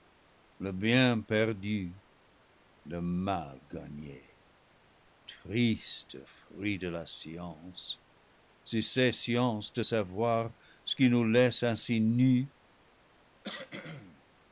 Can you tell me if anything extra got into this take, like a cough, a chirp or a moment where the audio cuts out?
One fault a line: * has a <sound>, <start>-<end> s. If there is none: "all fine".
* has a cough, 13.4-14.2 s